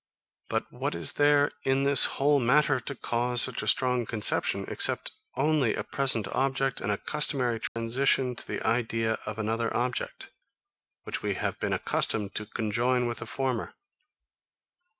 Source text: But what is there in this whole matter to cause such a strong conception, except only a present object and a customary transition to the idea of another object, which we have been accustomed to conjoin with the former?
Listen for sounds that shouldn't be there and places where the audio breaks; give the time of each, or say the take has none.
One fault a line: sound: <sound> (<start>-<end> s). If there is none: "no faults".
sound: dropout (7.7-7.8 s)